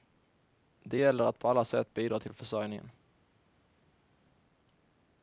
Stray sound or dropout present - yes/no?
no